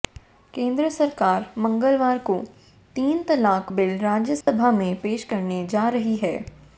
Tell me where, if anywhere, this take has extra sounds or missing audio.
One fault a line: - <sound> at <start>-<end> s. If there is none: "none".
- dropout at 4.4-4.5 s